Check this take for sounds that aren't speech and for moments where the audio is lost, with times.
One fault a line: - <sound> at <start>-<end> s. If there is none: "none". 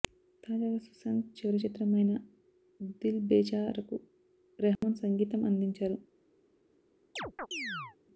- dropout at 4.8-4.8 s
- chirp at 7.2-8.0 s